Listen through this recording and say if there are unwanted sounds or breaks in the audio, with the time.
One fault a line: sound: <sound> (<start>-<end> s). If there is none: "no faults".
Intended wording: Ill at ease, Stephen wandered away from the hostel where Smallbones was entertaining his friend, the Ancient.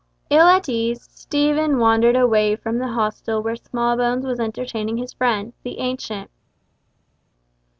no faults